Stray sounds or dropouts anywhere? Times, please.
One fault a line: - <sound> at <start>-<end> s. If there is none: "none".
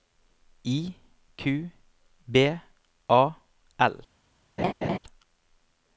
- laugh at 4.6-5.0 s